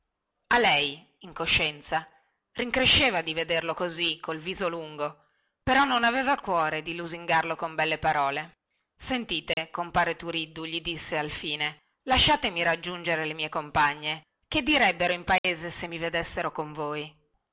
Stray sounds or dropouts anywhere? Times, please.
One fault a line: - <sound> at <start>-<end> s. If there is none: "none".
- dropout at 9.5-9.6 s
- dropout at 15.4-15.4 s